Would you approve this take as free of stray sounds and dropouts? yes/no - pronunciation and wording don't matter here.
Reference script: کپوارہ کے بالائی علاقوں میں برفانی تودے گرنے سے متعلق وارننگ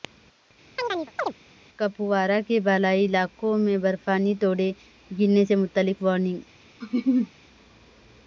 no